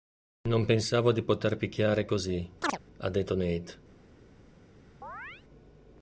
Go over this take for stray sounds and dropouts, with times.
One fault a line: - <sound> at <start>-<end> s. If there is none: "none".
- chirp at 2.6-2.8 s
- chirp at 5.0-5.4 s